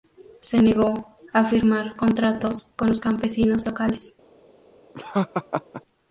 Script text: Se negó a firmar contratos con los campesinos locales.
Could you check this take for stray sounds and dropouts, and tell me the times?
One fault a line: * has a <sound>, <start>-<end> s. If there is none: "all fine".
* has a laugh, 4.9-5.8 s